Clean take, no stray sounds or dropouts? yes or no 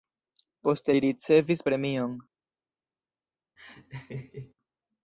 no